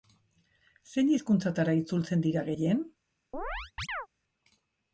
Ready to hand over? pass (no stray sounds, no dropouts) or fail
fail